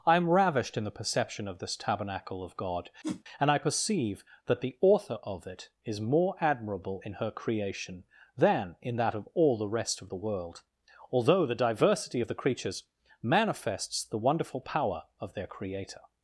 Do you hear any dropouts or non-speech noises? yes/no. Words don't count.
yes